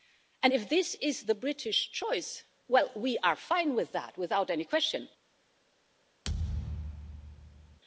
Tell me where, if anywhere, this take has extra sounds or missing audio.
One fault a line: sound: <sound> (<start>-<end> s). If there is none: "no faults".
sound: thud (6.2-7.8 s)